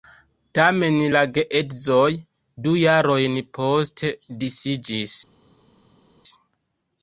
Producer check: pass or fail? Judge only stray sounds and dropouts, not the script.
pass